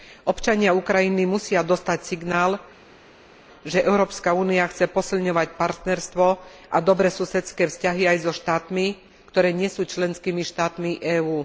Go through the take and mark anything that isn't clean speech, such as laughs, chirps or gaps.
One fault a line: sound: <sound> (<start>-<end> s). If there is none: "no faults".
no faults